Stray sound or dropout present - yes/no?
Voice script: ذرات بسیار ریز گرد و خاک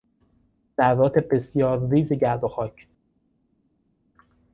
no